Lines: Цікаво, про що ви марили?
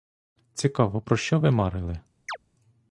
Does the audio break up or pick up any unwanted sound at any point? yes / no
yes